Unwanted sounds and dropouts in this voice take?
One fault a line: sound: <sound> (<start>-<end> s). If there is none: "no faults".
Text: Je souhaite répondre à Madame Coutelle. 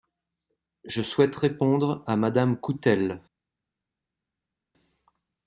no faults